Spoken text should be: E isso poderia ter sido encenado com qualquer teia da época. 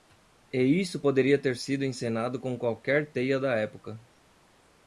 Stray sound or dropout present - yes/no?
no